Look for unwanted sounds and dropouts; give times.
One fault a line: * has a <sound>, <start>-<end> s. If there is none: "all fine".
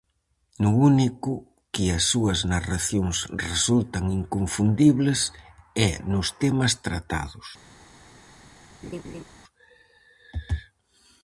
* has a laugh, 8.8-9.2 s